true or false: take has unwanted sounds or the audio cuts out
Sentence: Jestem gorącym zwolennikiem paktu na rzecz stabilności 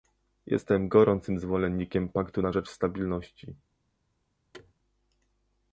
true